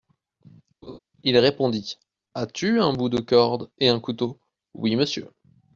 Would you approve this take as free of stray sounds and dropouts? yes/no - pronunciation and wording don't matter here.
no